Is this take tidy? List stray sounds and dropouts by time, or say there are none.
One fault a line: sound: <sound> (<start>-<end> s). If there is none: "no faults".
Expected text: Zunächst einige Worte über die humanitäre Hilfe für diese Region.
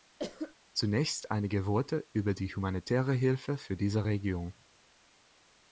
sound: cough (0.2-0.6 s)